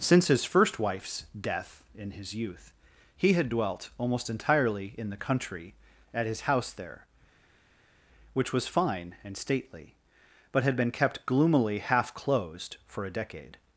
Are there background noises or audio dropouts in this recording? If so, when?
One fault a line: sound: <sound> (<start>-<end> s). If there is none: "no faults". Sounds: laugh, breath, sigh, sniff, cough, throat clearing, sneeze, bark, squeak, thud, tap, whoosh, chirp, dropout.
no faults